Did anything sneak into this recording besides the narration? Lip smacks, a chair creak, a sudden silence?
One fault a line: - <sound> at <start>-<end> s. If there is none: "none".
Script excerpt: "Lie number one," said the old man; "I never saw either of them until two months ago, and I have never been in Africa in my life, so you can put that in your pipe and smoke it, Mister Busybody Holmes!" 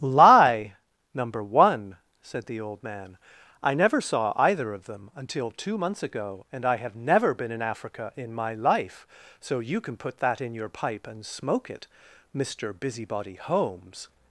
none